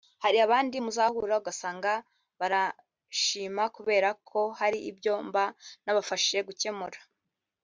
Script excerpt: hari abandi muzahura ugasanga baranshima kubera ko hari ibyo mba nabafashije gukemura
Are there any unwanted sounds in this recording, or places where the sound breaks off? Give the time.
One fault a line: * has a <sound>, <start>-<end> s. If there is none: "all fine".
all fine